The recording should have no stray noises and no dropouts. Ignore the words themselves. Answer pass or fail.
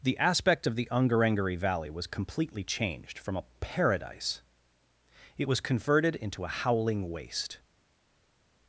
pass